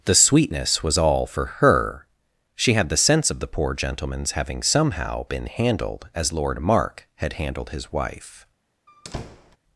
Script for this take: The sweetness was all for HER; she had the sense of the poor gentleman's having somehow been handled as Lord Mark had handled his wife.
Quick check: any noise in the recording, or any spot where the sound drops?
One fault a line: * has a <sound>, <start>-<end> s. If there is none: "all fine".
* has a squeak, 8.9-9.6 s